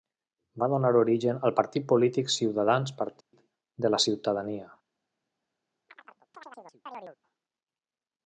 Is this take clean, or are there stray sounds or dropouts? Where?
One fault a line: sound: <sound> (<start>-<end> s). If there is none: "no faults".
sound: dropout (3.2-3.3 s)
sound: chirp (5.9-7.2 s)